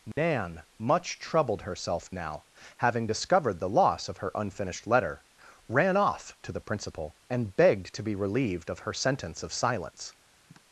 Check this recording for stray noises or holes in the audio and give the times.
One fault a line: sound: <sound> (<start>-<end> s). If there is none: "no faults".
sound: dropout (0.1-0.2 s)
sound: sigh (10.5-10.6 s)